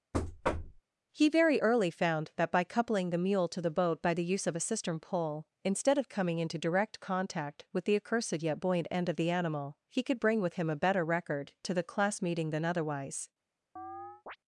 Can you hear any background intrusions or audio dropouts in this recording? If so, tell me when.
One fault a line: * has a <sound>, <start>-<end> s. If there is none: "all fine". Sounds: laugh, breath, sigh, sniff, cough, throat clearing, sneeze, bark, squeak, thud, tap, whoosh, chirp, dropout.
* has a thud, 0.1-0.8 s
* has a chirp, 13.8-14.4 s